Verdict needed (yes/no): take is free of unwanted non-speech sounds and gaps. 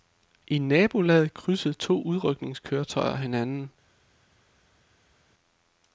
yes